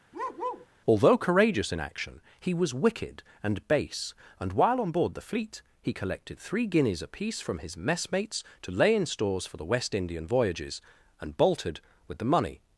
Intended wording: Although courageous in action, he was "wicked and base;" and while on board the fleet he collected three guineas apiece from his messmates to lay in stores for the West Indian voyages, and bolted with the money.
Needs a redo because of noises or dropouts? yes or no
yes